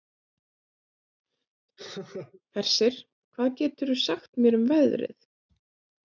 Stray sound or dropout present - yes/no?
yes